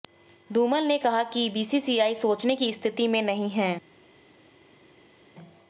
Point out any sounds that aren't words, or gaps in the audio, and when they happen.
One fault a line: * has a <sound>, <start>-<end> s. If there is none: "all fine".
all fine